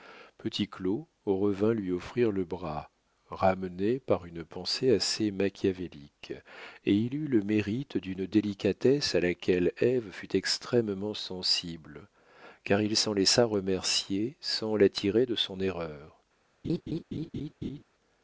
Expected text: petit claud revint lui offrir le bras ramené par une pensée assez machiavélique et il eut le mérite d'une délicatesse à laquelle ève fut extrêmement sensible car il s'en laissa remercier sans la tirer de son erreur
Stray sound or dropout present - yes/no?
yes